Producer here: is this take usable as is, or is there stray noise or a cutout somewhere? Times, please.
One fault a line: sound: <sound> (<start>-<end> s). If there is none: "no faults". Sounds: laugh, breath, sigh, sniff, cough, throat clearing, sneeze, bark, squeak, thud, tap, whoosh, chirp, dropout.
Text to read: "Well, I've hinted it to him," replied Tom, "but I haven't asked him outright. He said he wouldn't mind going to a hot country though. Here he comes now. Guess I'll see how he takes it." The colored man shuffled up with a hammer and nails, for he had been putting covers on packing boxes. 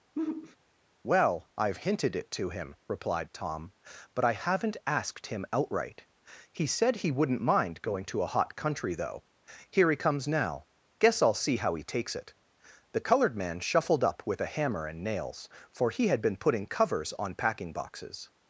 sound: sigh (0.2-0.6 s)